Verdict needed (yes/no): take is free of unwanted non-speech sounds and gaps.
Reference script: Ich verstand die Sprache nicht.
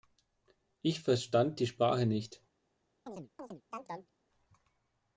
no